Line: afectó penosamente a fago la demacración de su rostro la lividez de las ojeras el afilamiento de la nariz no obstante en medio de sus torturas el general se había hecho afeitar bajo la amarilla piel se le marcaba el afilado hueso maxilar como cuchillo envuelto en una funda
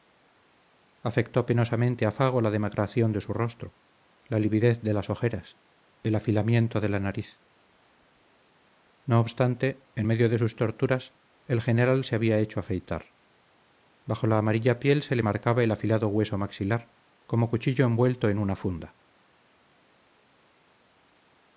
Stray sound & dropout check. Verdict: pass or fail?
pass